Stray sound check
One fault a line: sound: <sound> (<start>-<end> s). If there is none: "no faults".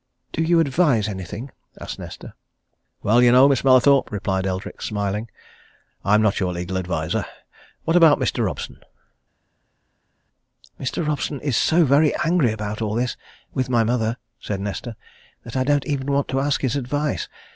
no faults